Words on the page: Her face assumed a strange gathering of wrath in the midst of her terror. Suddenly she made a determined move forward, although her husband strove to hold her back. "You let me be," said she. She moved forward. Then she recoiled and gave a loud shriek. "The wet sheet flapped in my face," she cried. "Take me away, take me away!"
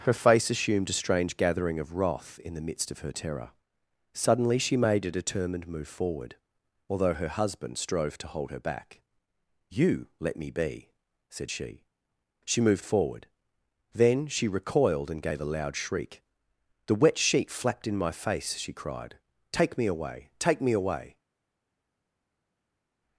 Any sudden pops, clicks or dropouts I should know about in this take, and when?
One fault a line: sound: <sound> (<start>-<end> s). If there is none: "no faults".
no faults